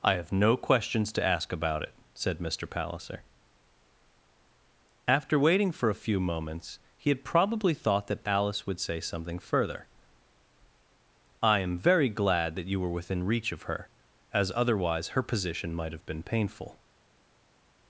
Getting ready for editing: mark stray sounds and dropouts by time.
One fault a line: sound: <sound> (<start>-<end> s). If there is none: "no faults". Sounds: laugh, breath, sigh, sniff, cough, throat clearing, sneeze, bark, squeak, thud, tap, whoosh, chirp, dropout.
no faults